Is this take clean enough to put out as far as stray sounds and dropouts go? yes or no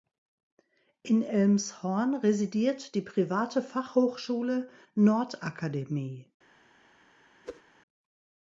no